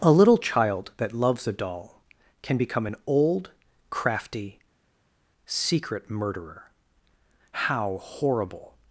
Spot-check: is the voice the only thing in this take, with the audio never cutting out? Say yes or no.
yes